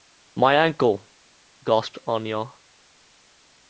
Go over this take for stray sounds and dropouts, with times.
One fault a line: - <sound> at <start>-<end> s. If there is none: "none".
none